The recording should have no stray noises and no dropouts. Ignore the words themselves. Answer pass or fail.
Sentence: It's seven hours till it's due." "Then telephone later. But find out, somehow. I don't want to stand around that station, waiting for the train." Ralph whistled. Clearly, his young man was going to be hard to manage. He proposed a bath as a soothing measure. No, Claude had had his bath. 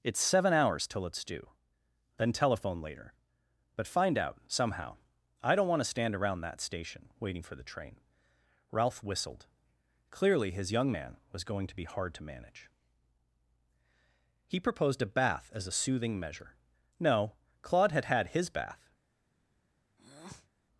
fail